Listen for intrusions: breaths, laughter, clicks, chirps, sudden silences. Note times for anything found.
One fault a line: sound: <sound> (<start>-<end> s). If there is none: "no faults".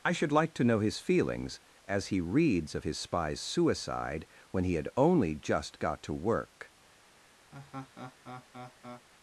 sound: laugh (7.5-9.1 s)